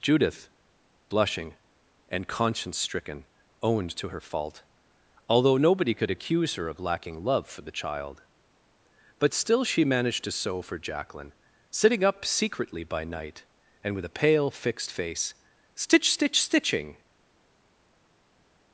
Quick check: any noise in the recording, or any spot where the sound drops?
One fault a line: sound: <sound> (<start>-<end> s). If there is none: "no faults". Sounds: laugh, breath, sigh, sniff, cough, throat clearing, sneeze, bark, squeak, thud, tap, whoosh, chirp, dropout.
no faults